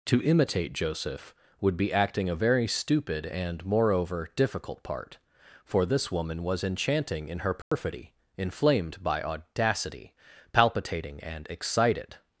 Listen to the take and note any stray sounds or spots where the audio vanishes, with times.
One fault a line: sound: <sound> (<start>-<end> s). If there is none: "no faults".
sound: dropout (7.6-7.7 s)